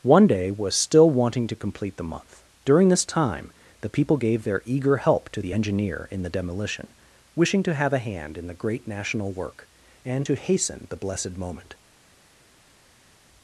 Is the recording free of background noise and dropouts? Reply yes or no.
yes